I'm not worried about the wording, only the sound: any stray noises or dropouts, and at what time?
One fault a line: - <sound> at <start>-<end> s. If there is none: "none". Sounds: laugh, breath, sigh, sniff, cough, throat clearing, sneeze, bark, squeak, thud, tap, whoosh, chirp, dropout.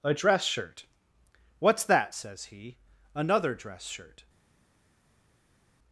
none